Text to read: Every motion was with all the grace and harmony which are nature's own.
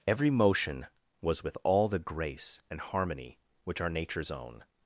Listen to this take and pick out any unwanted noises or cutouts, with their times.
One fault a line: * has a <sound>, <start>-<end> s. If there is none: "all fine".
all fine